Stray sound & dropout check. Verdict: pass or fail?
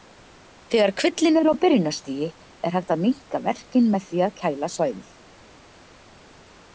pass